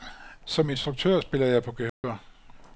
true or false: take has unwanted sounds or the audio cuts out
true